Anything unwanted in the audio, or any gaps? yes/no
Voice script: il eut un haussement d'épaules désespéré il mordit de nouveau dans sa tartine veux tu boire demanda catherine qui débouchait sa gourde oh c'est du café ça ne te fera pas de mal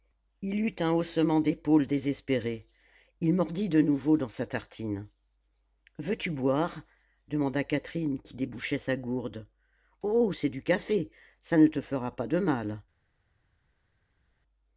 no